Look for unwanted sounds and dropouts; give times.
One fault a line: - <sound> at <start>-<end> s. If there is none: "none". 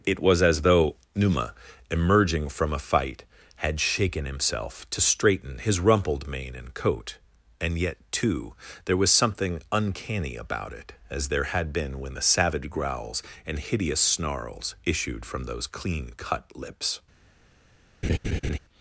- laugh at 18.0-18.6 s